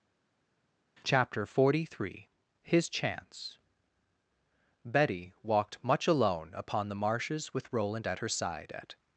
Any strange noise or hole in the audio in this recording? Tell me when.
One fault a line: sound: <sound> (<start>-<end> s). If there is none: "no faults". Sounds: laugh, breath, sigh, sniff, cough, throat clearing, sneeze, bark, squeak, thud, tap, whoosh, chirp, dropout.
no faults